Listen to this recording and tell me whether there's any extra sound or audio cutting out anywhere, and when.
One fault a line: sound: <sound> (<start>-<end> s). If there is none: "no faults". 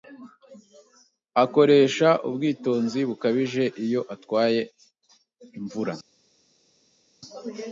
no faults